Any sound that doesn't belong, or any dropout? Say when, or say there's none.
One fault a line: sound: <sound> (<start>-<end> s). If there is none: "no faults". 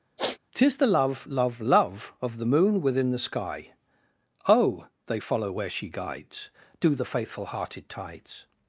sound: sniff (0.2-0.4 s)